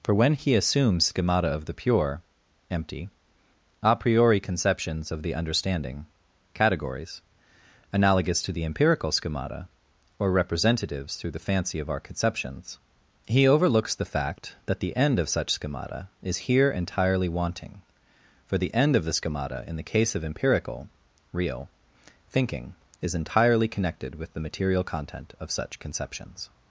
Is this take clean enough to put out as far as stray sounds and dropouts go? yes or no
yes